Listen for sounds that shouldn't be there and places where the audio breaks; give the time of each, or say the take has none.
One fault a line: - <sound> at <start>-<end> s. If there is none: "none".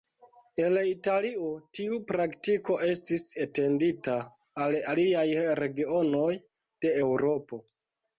none